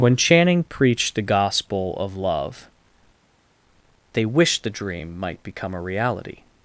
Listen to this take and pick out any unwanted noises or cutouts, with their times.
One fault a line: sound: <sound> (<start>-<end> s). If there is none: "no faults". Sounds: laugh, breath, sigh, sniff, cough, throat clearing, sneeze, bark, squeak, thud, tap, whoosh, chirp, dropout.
no faults